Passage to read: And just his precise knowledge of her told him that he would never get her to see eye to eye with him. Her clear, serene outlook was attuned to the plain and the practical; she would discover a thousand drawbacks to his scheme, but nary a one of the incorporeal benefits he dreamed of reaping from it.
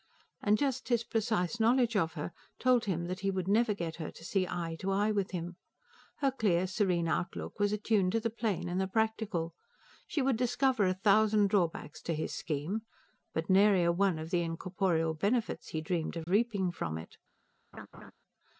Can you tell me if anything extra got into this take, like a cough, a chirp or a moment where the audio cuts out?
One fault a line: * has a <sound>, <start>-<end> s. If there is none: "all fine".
* has a dropout, 16.2-16.3 s
* has a laugh, 17.7-18.1 s